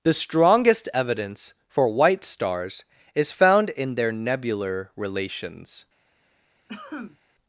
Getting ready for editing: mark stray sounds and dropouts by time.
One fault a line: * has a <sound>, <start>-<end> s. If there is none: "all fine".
* has a cough, 6.7-7.2 s